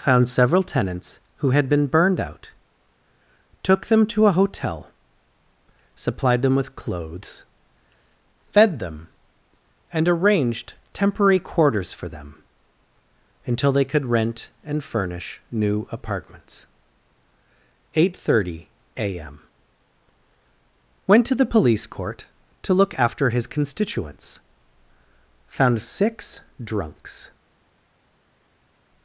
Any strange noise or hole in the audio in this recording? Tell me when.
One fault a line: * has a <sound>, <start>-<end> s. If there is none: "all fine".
all fine